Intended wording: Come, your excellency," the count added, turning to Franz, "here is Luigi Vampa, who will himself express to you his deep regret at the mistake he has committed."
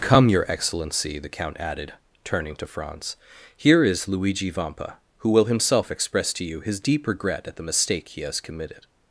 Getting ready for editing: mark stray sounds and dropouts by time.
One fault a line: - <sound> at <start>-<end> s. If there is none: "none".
none